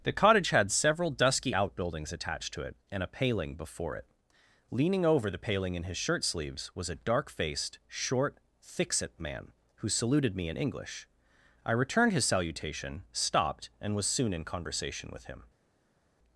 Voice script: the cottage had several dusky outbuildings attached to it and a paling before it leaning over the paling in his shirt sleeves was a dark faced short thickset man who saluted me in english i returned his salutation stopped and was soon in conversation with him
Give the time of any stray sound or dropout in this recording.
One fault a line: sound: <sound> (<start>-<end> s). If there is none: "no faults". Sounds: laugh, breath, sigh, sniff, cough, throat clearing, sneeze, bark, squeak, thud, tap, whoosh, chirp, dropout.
no faults